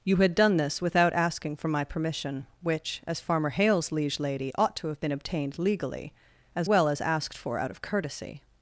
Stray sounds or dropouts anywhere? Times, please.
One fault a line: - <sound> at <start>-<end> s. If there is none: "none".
none